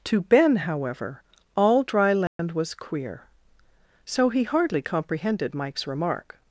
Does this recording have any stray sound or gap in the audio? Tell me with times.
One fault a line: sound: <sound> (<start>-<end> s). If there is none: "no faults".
sound: dropout (2.3-2.4 s)